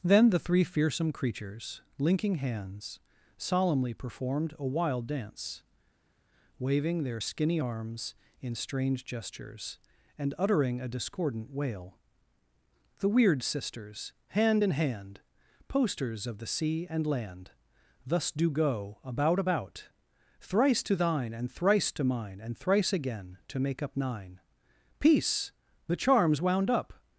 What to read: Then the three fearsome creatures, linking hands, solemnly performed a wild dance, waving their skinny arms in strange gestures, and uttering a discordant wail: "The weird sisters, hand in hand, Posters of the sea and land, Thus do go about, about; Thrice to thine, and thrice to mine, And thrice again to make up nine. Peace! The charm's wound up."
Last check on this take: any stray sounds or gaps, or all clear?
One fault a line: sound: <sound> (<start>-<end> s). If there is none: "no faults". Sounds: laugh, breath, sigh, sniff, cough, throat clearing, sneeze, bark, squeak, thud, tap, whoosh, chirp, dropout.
no faults